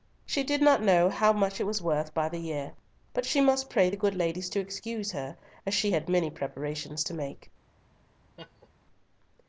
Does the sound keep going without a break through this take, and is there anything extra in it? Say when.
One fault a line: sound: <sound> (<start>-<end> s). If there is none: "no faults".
sound: laugh (8.4-8.7 s)